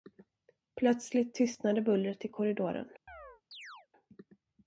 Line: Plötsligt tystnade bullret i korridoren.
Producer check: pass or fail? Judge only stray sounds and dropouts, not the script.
fail